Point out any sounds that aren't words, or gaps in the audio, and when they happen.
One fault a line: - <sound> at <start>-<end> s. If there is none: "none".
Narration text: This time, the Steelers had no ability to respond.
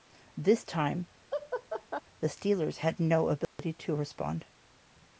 - laugh at 1.3-2.0 s
- dropout at 3.4-3.6 s